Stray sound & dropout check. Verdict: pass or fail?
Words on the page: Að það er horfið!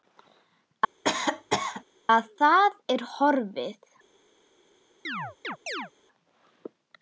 fail